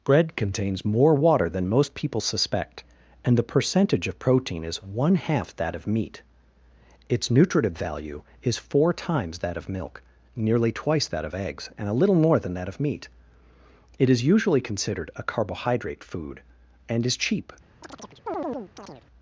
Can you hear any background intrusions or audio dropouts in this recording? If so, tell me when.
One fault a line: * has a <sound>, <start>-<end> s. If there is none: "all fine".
* has a chirp, 17.8-19.0 s